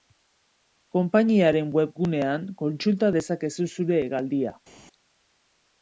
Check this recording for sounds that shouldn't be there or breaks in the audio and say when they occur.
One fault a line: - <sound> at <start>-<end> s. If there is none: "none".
none